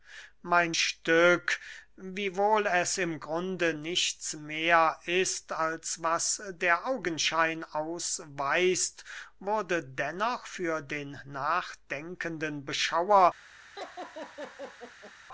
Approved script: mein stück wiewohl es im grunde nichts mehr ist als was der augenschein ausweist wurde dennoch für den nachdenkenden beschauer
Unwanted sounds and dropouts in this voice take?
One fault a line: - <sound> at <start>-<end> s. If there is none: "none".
- laugh at 13.8-15.1 s